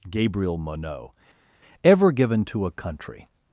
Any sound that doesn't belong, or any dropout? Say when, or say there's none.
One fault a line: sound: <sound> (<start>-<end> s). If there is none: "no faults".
no faults